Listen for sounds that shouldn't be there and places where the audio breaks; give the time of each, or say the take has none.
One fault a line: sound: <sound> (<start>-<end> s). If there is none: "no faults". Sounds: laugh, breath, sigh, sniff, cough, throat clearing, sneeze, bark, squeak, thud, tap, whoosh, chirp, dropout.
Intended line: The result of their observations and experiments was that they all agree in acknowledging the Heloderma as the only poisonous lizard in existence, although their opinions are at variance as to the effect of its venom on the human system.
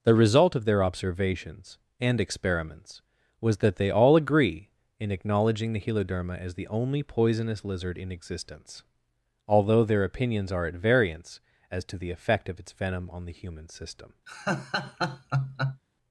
sound: laugh (14.3-15.8 s)